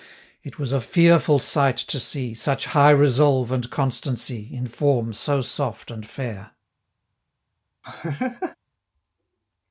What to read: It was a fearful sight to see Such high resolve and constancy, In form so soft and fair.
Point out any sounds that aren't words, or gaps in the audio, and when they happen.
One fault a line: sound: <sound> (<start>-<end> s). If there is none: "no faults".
sound: laugh (7.8-8.6 s)